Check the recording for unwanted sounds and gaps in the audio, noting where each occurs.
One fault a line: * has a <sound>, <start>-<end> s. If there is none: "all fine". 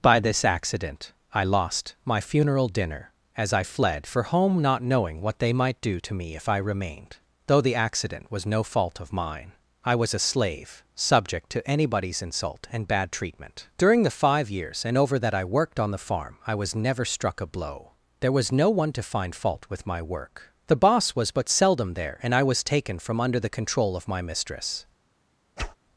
* has a whoosh, 25.6-25.8 s